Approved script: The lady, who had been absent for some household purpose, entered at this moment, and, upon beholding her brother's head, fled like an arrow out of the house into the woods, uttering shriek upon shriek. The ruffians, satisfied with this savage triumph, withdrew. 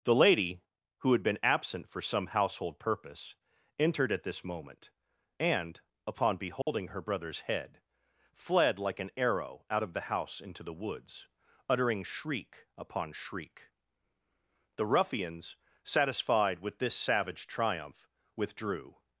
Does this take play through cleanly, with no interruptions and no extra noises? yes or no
no